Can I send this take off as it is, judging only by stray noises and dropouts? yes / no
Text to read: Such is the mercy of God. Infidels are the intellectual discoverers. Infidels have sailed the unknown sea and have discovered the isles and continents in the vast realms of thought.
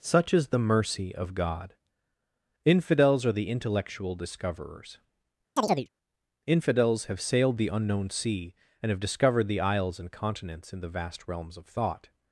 no